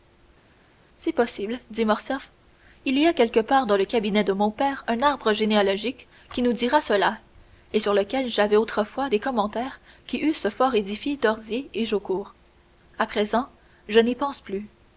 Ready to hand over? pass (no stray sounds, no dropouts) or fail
pass